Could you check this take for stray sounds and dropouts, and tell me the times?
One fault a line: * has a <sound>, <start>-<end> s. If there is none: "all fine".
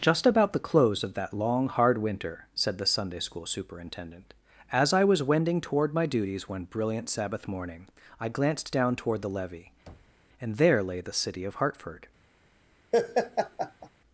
* has a thud, 9.9-10.2 s
* has a laugh, 12.9-13.9 s